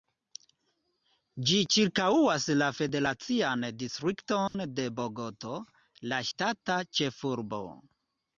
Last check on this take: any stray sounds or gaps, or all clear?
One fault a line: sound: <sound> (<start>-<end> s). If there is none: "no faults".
sound: dropout (4.5-4.5 s)